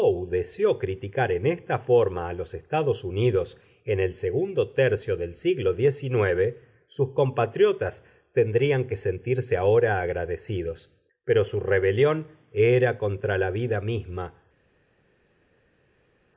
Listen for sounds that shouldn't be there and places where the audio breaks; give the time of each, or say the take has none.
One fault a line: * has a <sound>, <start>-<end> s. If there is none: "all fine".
all fine